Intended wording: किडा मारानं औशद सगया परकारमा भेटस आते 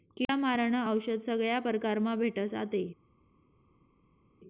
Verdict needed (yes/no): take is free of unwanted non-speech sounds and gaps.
yes